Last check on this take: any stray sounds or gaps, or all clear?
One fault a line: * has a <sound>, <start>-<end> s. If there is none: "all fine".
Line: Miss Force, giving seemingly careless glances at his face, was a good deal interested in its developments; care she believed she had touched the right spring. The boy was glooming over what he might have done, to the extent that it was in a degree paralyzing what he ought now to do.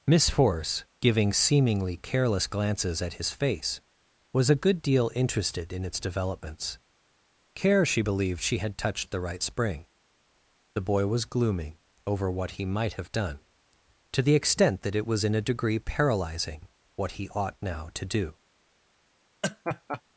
* has a laugh, 19.4-20.0 s